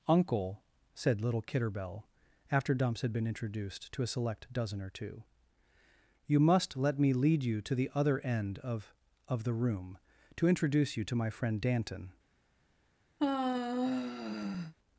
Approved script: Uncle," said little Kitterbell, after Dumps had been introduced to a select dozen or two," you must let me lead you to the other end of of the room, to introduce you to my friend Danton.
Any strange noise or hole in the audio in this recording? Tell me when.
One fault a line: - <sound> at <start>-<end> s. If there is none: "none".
- sigh at 13.2-14.7 s